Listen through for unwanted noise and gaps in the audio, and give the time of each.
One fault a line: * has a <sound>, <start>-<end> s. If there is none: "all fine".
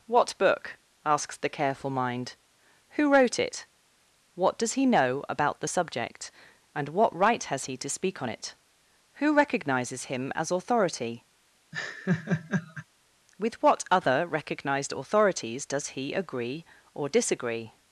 * has a laugh, 11.7-12.9 s